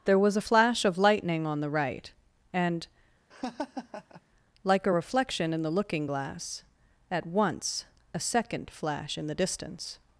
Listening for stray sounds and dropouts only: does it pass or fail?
fail